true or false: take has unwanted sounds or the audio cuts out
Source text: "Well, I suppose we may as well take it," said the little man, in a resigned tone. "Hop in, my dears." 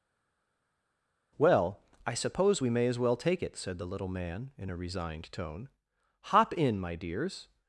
false